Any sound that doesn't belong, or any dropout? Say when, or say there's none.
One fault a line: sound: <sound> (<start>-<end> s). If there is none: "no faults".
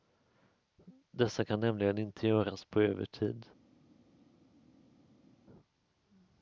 no faults